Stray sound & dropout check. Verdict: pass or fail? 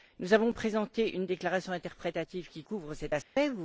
fail